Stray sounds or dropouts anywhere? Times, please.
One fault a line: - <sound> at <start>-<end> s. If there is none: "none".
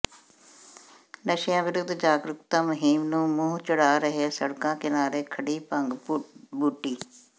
none